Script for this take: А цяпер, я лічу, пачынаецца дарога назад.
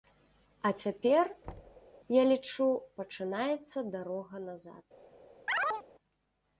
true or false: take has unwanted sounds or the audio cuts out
true